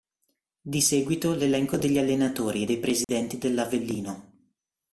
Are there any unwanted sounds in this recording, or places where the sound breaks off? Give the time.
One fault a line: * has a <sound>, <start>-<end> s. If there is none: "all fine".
* has a dropout, 3.0-3.1 s